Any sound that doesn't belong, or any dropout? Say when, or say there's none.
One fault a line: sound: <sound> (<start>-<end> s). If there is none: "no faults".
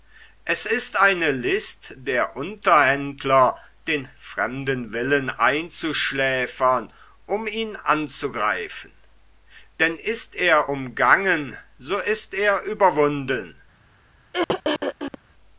sound: throat clearing (14.3-15.2 s)